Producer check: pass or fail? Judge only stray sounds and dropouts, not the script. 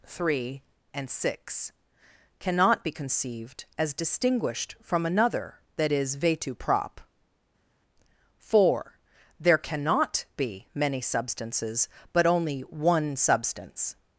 pass